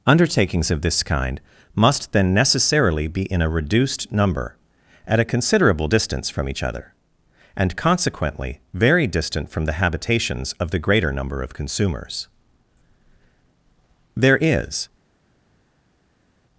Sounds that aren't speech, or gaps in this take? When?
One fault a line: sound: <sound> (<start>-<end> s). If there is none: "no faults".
no faults